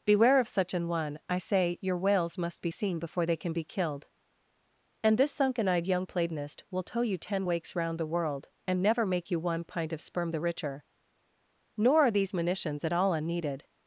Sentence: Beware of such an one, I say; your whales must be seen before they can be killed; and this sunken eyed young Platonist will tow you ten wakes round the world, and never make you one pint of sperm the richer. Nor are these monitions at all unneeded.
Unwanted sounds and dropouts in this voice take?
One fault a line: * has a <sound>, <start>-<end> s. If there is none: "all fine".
all fine